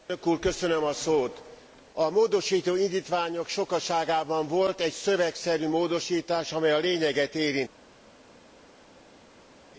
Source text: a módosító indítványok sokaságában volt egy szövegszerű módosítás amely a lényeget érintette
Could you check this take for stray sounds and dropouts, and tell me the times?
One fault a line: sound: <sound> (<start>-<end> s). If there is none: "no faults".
no faults